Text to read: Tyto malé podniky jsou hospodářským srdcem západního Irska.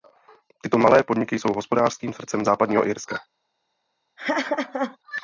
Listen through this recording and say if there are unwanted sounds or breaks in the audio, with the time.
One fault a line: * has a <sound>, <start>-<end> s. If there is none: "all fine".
* has a laugh, 4.2-5.0 s